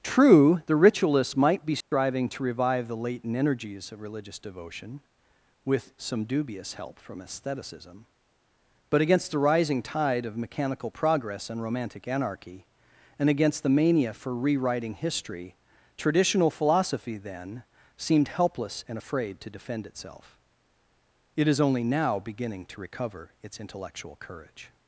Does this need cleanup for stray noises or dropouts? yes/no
yes